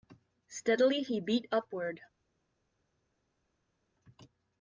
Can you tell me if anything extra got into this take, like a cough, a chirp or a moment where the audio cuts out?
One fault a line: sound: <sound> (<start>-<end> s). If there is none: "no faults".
no faults